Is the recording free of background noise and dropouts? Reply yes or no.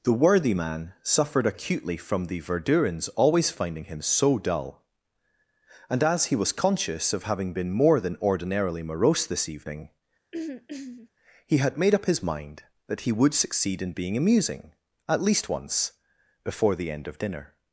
no